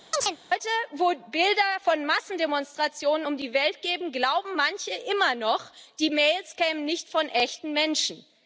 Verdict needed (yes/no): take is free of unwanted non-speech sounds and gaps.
no